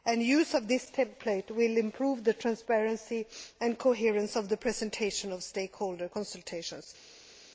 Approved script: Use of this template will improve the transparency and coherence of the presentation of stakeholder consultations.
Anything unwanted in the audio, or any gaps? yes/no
no